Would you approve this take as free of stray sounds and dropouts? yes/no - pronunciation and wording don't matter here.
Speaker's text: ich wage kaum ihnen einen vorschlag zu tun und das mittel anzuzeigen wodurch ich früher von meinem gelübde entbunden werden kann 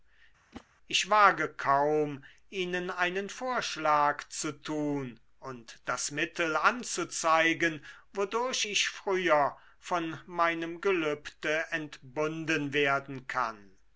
no